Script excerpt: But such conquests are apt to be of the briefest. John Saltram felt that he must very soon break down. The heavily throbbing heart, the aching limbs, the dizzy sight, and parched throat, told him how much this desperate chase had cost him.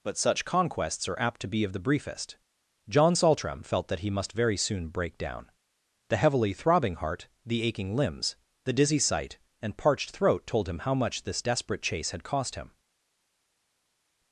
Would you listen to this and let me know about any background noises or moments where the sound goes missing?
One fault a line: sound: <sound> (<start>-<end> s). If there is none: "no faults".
no faults